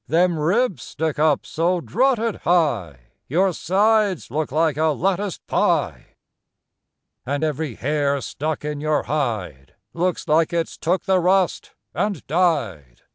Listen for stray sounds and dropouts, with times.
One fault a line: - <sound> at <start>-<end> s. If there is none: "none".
none